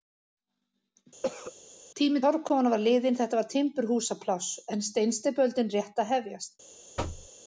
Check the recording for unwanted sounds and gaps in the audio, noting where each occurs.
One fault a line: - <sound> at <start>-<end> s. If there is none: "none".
- cough at 1.2-1.5 s
- thud at 7.0-7.3 s